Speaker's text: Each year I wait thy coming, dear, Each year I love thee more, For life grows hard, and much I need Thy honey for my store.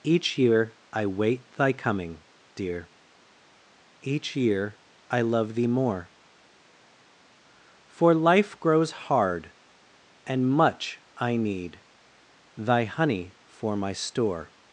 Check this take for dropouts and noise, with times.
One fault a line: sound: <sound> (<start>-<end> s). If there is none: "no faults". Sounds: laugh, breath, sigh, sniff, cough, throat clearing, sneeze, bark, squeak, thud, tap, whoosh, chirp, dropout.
no faults